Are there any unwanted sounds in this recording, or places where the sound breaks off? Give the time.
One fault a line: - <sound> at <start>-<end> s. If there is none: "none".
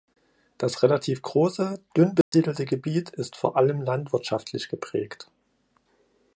- dropout at 2.2-2.3 s